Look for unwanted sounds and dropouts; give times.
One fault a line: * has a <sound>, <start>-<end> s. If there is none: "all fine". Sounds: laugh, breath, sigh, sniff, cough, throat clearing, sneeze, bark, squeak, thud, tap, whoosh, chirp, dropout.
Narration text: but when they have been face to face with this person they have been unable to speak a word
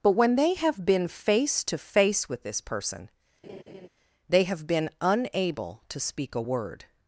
* has a laugh, 3.4-3.9 s